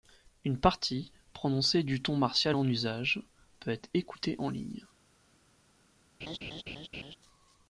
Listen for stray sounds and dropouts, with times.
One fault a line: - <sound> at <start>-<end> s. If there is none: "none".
- laugh at 6.2-7.2 s